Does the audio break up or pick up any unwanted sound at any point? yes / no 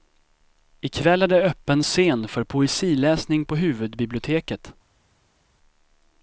no